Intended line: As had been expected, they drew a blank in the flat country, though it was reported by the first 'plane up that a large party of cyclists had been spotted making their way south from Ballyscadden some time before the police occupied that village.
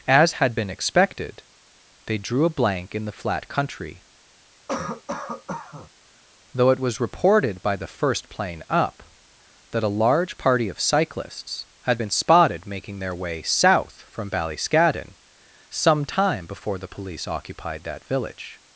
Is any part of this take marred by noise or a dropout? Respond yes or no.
yes